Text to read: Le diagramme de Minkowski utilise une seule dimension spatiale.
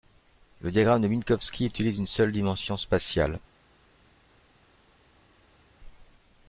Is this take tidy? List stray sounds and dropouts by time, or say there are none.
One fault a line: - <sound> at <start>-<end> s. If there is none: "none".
none